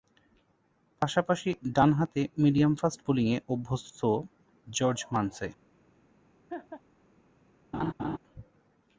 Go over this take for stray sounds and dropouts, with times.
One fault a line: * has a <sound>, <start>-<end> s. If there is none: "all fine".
* has a laugh, 6.5-6.8 s
* has a laugh, 7.7-8.2 s